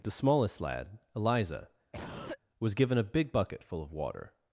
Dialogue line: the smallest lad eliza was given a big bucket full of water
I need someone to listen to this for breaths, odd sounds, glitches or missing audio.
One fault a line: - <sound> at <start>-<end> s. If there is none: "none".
- cough at 1.9-2.4 s